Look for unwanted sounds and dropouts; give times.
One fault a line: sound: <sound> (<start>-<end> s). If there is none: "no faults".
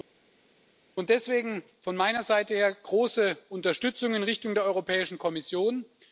no faults